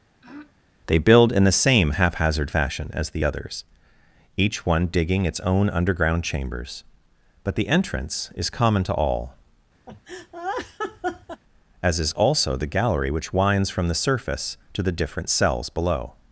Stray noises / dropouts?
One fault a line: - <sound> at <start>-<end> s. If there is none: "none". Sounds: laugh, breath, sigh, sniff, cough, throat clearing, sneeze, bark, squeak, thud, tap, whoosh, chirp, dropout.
- throat clearing at 0.2-0.5 s
- laugh at 9.9-11.4 s